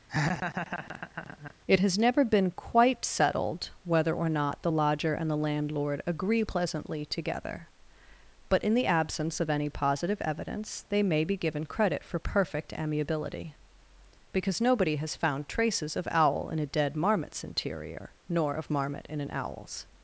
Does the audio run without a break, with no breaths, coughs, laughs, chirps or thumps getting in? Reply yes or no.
no